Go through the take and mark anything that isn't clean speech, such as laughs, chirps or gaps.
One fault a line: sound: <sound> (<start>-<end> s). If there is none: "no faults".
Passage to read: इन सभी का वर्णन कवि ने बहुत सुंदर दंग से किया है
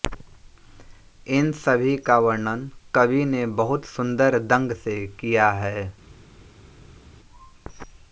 no faults